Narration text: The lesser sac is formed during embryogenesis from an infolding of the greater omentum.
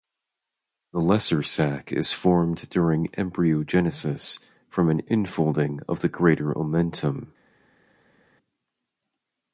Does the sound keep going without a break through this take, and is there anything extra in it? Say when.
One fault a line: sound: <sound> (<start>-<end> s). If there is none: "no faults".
no faults